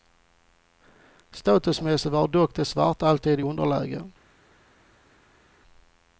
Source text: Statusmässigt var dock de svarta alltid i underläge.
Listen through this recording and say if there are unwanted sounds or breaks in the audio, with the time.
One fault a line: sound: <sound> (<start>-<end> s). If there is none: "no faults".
no faults